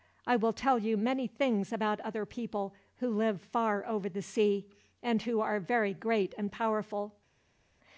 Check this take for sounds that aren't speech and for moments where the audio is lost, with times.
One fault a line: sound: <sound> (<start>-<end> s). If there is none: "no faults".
no faults